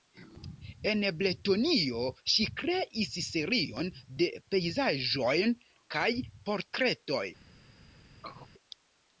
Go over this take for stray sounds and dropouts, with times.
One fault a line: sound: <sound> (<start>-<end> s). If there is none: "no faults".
sound: throat clearing (8.2-8.5 s)